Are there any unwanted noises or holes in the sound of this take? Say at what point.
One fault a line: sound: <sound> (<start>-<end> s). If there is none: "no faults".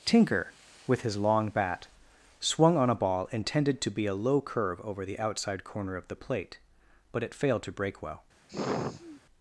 sound: sigh (8.5-9.2 s)